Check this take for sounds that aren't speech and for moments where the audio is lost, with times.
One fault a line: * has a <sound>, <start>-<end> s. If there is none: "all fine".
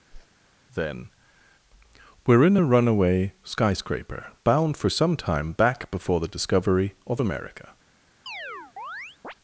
* has a whoosh, 0.1-0.3 s
* has a chirp, 8.3-9.3 s